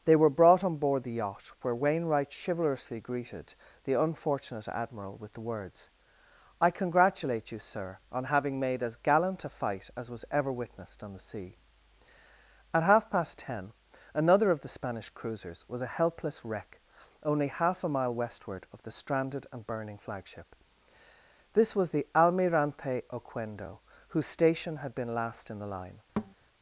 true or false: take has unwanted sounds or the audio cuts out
true